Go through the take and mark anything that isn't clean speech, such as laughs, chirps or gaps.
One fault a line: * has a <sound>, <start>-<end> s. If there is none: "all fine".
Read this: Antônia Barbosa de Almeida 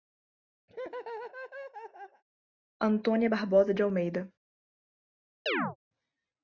* has a laugh, 0.7-2.2 s
* has a chirp, 5.5-5.8 s